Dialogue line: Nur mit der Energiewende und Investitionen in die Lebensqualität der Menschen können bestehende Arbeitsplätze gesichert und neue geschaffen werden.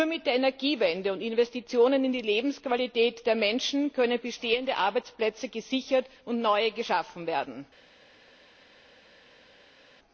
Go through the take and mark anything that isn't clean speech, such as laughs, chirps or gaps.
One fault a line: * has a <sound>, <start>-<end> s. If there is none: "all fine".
all fine